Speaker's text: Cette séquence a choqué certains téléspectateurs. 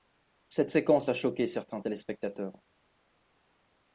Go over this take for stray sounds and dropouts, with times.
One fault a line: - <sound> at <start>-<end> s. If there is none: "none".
none